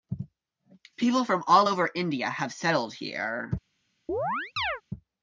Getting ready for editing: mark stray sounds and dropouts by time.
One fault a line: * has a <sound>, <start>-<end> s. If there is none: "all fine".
* has a chirp, 4.1-4.8 s